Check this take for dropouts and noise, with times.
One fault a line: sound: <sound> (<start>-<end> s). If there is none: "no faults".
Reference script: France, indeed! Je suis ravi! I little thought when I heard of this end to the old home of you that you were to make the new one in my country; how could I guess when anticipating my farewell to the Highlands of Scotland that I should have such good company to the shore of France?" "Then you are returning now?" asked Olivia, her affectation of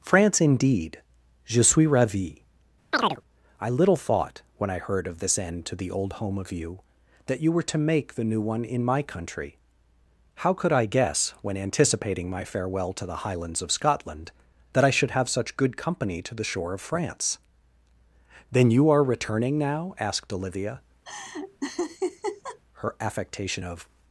sound: chirp (2.9-3.2 s)
sound: laugh (21.0-22.6 s)